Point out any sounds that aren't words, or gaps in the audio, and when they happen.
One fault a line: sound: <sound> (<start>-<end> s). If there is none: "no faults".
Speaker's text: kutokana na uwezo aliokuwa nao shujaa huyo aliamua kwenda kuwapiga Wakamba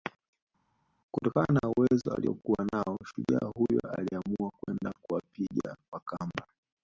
no faults